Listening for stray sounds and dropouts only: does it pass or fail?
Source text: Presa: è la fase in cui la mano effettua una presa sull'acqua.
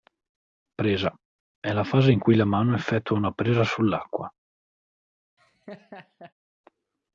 fail